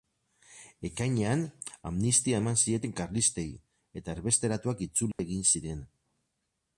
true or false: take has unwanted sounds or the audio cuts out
true